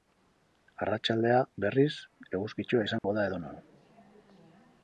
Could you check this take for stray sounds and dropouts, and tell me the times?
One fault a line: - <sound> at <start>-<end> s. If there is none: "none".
- dropout at 3.0-3.0 s